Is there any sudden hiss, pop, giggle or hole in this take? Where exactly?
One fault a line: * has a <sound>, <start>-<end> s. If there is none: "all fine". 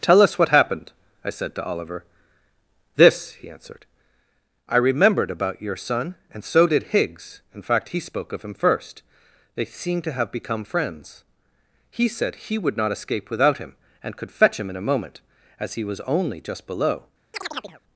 * has a chirp, 17.3-17.8 s